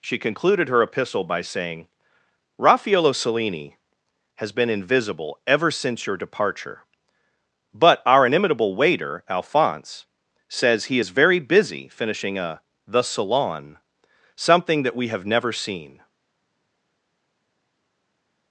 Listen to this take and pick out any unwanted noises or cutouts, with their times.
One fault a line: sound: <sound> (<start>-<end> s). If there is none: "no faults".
no faults